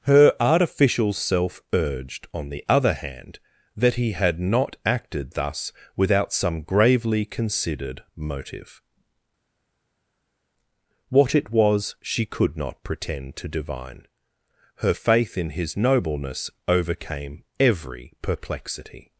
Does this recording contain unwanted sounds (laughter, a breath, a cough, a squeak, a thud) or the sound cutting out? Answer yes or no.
no